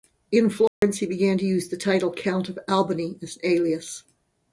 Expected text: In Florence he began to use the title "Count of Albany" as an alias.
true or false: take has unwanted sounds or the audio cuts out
true